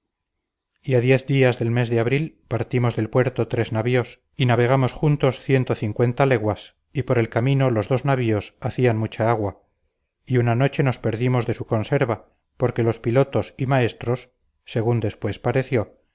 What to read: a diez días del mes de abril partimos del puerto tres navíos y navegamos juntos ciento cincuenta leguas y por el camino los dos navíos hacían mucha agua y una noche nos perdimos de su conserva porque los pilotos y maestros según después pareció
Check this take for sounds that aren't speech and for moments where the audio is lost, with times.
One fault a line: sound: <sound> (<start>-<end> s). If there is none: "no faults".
no faults